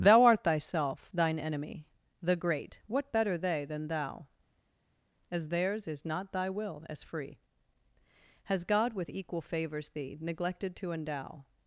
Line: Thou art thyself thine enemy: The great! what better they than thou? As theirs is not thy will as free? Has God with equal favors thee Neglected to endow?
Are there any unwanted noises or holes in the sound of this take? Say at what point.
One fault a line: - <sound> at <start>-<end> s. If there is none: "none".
none